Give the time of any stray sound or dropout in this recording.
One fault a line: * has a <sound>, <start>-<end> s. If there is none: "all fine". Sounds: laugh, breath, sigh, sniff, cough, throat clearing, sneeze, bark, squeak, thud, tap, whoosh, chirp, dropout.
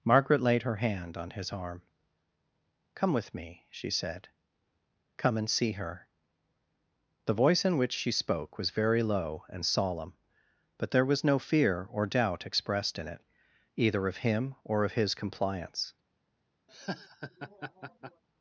* has a laugh, 16.7-18.2 s